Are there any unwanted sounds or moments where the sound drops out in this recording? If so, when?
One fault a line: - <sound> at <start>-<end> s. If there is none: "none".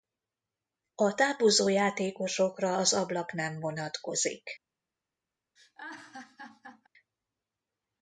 - laugh at 5.6-6.9 s